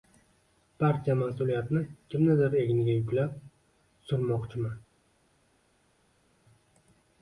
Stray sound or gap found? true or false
false